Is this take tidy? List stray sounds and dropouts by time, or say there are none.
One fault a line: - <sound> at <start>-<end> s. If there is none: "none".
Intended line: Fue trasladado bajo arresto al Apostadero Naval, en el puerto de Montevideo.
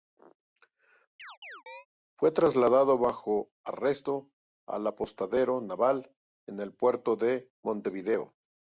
- chirp at 1.2-1.9 s